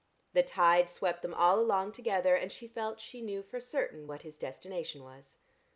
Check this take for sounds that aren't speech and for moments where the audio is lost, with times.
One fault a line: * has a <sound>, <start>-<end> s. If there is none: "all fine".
all fine